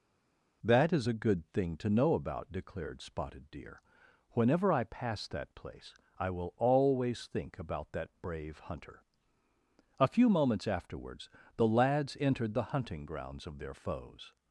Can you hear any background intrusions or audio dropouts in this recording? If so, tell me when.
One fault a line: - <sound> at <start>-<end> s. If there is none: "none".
none